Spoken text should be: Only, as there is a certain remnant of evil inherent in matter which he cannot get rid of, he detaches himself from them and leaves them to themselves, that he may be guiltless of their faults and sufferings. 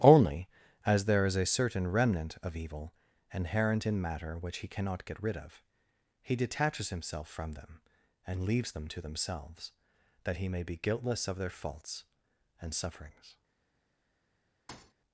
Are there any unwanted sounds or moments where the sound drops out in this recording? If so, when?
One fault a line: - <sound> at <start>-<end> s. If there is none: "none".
- thud at 14.7-14.9 s